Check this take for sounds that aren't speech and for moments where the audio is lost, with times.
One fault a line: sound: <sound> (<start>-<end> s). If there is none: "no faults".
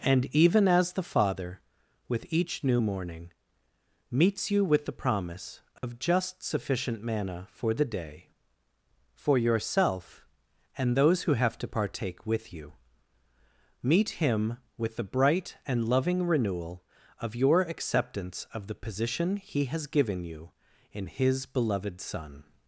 sound: dropout (5.8-5.8 s)